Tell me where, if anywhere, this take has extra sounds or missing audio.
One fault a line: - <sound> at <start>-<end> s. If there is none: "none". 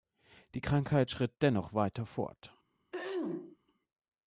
- throat clearing at 2.9-3.6 s